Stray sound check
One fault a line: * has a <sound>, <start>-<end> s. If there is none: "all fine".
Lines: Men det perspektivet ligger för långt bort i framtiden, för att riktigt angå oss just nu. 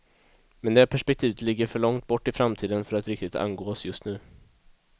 all fine